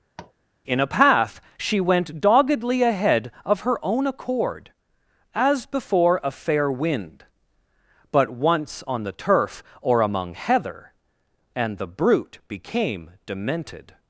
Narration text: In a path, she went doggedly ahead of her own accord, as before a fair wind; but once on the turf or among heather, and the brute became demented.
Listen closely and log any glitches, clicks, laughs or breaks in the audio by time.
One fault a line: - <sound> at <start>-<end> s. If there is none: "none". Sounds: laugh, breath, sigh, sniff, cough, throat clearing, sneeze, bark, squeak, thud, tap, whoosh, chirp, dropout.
- tap at 0.2-0.3 s